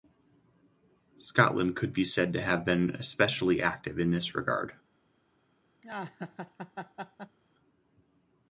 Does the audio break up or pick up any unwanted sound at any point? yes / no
yes